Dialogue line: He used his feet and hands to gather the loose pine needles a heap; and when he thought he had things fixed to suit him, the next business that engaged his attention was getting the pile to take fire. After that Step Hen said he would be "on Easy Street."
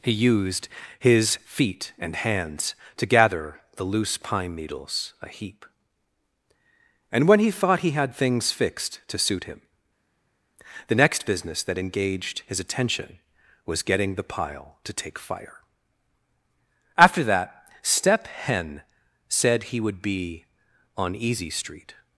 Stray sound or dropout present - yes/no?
no